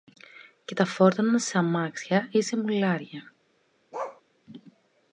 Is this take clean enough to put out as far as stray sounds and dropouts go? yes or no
no